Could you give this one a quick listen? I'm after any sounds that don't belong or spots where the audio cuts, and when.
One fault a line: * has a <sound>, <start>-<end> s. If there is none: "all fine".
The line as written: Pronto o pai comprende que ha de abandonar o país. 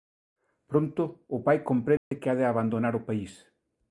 * has a dropout, 2.0-2.1 s